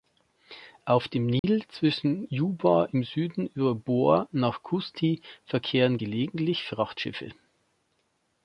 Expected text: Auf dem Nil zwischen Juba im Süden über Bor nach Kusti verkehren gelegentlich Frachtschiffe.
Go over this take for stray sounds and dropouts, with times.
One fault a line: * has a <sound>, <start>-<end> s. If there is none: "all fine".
* has a dropout, 1.4-1.4 s